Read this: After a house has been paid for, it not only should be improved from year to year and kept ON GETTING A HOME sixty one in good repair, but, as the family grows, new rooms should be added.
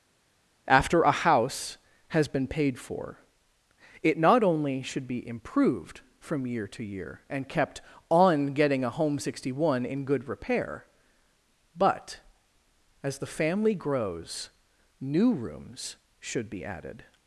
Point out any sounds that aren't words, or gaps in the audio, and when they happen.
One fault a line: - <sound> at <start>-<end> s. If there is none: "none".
none